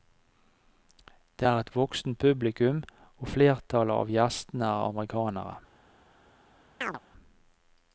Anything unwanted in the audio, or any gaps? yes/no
yes